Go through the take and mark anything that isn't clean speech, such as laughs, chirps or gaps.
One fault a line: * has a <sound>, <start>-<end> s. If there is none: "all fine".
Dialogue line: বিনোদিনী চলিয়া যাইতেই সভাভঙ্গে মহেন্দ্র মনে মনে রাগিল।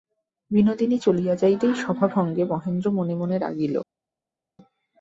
all fine